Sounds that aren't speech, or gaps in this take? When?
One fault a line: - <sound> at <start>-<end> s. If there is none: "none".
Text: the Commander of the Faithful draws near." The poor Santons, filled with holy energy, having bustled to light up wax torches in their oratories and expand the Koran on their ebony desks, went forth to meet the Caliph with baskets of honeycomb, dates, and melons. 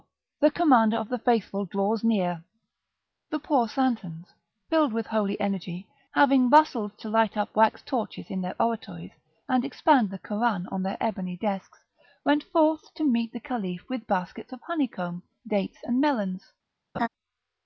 - laugh at 16.9-17.1 s